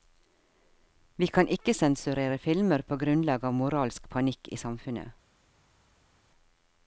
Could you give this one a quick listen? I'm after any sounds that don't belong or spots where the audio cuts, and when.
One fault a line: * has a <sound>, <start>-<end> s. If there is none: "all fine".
all fine